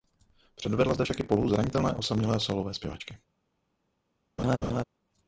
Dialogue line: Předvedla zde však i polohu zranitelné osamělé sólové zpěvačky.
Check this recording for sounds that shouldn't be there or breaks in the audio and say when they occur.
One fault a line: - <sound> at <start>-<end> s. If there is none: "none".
- laugh at 4.4-4.8 s